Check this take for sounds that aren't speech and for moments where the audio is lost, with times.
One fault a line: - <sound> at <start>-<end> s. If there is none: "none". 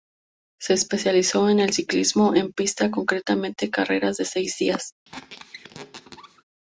- squeak at 5.0-6.4 s